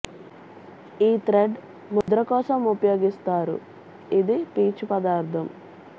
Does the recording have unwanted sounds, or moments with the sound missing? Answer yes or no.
yes